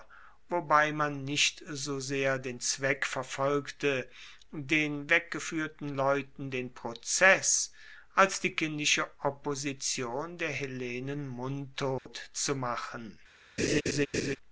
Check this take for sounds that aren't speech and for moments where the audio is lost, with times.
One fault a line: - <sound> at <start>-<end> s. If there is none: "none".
- dropout at 12.0-12.1 s
- laugh at 13.6-14.4 s